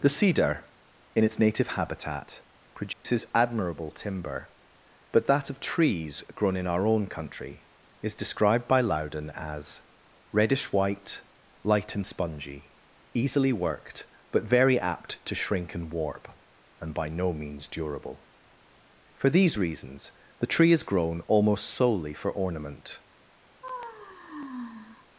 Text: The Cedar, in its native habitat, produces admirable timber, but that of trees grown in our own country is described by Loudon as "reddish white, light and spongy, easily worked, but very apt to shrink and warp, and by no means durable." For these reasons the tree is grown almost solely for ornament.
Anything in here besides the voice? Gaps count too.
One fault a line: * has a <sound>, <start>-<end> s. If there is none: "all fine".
* has a dropout, 2.9-3.0 s
* has a sigh, 23.6-25.1 s